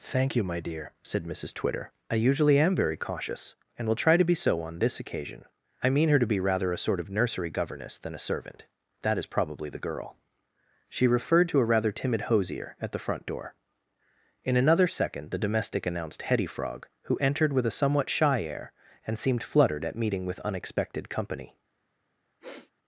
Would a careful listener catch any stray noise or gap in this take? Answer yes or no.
yes